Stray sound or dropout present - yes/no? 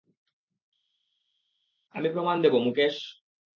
no